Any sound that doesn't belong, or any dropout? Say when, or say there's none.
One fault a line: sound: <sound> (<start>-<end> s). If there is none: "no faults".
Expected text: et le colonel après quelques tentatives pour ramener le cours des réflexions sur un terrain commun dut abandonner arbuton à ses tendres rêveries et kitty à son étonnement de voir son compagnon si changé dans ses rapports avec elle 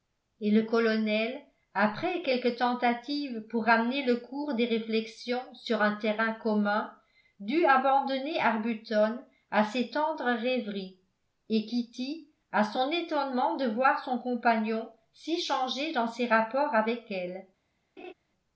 sound: laugh (18.0-18.1 s)